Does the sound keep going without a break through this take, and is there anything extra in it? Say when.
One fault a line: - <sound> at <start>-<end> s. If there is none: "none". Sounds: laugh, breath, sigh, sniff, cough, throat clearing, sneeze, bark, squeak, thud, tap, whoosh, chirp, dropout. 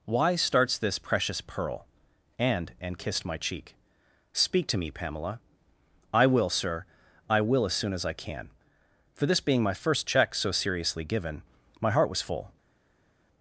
none